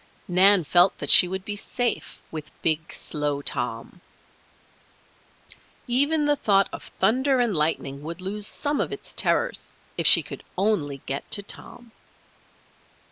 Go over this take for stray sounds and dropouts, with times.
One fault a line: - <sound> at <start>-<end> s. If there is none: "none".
none